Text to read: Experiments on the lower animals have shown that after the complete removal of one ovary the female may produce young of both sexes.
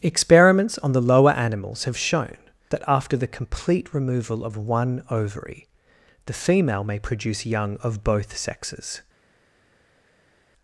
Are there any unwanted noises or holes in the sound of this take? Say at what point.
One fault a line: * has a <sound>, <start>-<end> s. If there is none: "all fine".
all fine